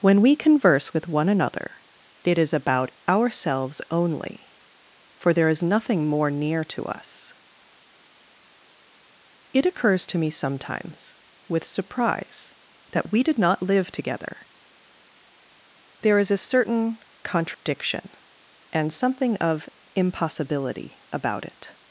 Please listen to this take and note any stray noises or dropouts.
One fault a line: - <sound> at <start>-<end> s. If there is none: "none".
- dropout at 17.5-17.7 s